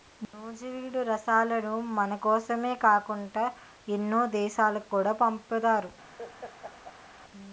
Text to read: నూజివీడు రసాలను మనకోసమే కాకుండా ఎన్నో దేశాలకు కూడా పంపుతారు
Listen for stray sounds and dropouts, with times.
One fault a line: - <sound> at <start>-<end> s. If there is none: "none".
- laugh at 6.2-7.2 s